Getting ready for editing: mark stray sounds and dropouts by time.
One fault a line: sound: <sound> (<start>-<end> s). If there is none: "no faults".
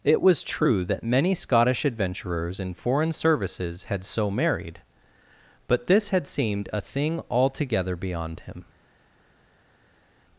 no faults